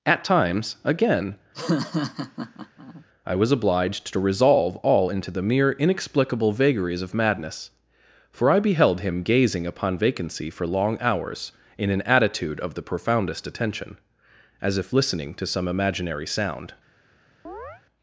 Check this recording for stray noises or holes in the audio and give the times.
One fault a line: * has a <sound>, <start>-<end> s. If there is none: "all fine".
* has a laugh, 1.5-3.0 s
* has a chirp, 17.4-17.8 s